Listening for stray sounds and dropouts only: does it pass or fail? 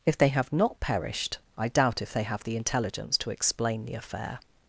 pass